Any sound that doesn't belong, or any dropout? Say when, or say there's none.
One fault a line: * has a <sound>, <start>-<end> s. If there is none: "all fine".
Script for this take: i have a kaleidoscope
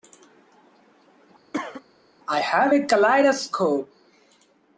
* has a cough, 1.5-1.8 s